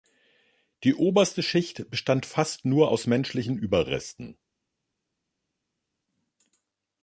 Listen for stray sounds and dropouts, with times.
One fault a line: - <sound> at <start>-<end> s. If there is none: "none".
none